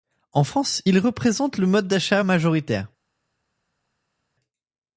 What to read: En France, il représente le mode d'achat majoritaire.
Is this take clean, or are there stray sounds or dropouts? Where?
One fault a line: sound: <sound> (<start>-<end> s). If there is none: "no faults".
no faults